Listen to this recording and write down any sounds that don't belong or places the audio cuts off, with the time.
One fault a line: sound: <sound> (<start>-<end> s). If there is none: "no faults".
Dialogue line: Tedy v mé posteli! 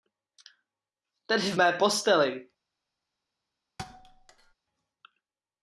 sound: thud (3.8-4.5 s)